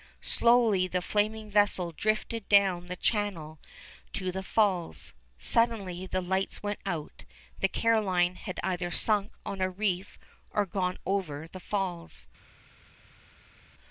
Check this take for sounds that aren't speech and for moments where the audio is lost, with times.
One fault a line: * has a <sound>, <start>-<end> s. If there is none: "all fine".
all fine